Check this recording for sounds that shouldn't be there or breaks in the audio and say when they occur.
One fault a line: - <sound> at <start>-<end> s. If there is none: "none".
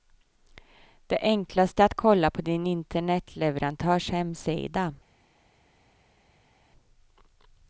none